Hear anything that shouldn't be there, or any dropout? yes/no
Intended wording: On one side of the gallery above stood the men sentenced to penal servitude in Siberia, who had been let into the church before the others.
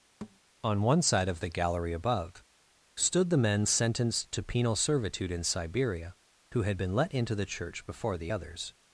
yes